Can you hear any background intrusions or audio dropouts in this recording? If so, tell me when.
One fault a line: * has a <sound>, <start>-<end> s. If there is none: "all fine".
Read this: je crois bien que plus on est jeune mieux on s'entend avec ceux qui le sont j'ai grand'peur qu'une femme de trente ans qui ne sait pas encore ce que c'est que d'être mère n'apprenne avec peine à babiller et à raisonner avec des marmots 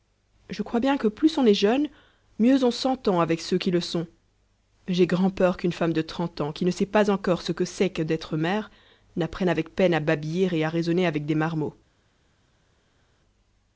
all fine